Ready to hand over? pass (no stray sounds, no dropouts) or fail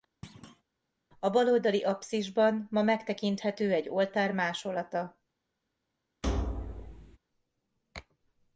fail